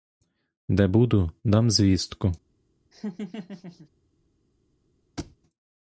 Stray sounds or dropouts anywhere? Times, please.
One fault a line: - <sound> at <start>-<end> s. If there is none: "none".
- laugh at 2.9-3.9 s
- thud at 5.2-5.4 s